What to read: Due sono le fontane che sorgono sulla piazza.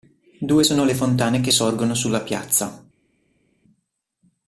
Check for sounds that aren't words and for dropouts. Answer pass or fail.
pass